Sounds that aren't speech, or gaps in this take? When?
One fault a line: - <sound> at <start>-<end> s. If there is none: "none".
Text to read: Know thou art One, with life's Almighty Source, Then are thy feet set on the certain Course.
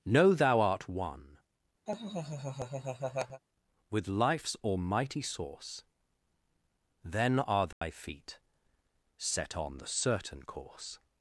- laugh at 1.9-3.4 s
- dropout at 7.7-7.8 s